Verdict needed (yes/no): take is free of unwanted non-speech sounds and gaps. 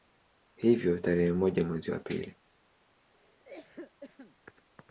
no